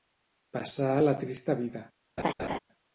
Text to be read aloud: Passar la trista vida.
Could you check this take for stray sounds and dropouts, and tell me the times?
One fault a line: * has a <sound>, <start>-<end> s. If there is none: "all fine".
* has a laugh, 2.2-2.6 s